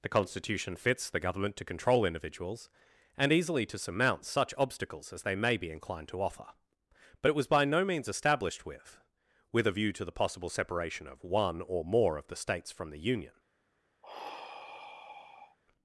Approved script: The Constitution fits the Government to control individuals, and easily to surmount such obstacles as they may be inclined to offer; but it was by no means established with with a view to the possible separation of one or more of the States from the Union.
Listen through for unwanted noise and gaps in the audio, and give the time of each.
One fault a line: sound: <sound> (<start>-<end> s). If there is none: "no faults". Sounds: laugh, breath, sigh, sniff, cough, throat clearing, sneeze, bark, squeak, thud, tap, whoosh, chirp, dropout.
sound: sigh (14.0-15.6 s)